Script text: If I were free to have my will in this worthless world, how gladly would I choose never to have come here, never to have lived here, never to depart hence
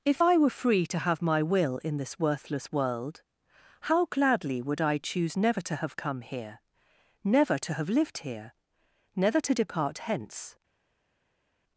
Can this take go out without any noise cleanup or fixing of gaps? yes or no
yes